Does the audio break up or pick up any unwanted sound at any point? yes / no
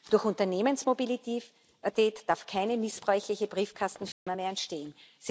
yes